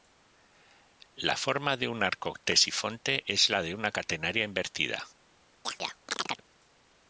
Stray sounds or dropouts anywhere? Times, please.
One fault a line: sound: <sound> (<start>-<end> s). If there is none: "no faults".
sound: chirp (5.6-6.4 s)